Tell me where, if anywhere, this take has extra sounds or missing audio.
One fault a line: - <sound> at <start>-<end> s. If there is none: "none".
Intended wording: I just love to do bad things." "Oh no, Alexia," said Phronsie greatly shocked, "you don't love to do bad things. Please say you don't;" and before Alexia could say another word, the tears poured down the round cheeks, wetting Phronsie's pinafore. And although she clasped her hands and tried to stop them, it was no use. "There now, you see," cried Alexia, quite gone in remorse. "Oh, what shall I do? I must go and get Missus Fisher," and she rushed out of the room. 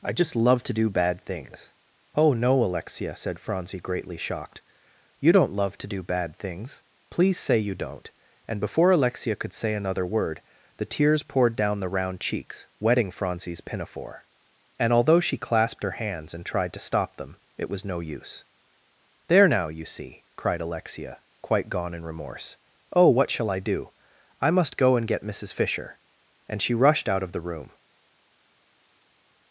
none